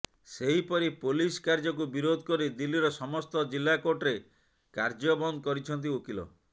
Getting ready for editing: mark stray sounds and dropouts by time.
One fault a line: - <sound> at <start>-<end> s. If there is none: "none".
none